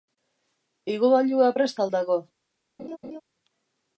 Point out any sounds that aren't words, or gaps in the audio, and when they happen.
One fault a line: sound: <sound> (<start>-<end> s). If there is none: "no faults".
sound: laugh (2.8-3.2 s)